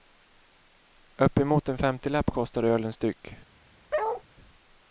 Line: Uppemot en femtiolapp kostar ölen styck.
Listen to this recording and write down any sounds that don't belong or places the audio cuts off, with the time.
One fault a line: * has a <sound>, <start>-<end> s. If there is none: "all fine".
* has a bark, 3.9-4.2 s